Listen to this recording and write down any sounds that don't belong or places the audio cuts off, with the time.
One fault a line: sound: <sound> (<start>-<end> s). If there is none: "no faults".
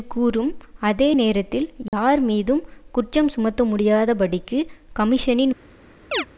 sound: dropout (1.9-1.9 s)
sound: chirp (6.1-6.3 s)